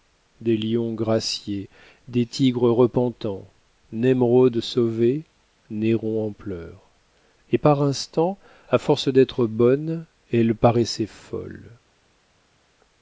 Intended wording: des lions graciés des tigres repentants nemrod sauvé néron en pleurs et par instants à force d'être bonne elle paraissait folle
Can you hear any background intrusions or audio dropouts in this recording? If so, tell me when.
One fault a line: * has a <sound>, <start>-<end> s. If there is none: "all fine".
all fine